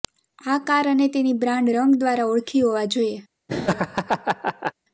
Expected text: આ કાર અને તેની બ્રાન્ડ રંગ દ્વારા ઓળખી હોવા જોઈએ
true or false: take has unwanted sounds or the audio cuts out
true